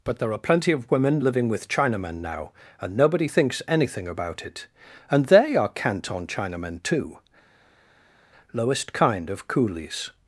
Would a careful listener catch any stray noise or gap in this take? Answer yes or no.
no